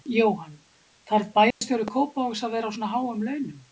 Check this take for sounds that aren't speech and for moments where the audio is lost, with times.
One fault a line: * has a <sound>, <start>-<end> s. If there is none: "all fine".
* has a dropout, 1.5-1.6 s